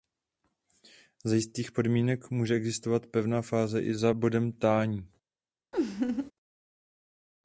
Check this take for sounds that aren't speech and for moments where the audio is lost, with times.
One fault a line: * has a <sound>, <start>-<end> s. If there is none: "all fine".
* has a laugh, 5.7-6.3 s